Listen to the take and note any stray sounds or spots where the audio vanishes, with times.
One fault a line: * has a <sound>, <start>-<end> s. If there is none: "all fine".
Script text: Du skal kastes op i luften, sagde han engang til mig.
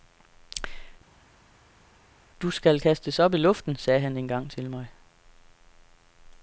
all fine